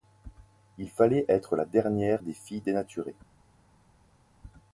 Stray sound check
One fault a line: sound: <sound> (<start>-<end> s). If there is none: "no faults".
no faults